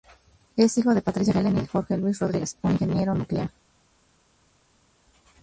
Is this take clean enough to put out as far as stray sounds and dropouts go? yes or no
yes